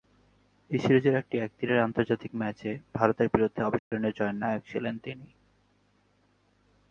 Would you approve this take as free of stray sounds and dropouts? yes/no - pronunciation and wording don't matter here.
no